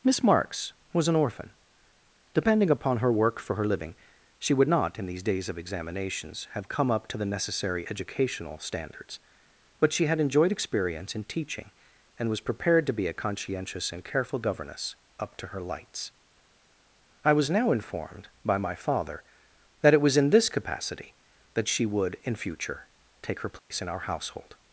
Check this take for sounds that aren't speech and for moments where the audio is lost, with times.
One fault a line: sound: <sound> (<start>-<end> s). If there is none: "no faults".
sound: dropout (23.6-23.7 s)